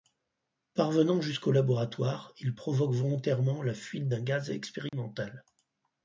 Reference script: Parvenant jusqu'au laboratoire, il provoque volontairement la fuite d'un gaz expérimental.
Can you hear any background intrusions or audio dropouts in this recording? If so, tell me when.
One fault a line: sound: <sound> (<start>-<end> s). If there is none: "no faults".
sound: dropout (4.9-4.9 s)